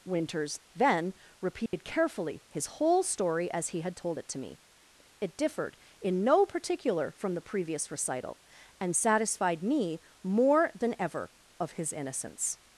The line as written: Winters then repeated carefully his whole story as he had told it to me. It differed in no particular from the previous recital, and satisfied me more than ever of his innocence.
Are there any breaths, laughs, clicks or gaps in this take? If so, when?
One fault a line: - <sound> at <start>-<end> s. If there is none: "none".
- dropout at 1.7-1.7 s